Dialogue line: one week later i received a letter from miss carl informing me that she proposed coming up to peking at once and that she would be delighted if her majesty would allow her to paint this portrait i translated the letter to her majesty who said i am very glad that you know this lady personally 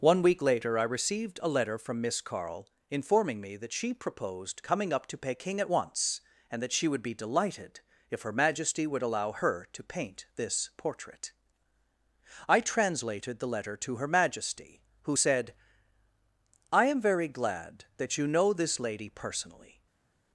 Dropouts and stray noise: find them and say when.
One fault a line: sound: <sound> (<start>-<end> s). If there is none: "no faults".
no faults